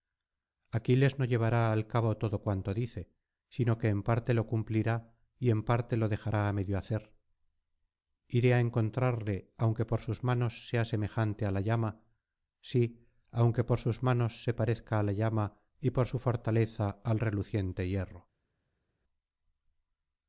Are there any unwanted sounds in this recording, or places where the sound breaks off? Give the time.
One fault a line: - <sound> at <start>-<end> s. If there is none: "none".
none